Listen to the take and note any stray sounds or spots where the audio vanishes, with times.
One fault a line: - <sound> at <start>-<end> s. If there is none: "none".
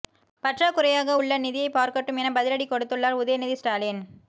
none